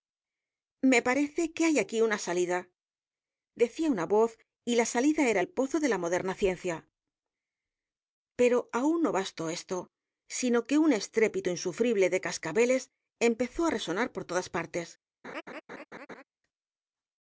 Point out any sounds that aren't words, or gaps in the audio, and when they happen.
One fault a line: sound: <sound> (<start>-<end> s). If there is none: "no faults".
sound: laugh (15.2-16.2 s)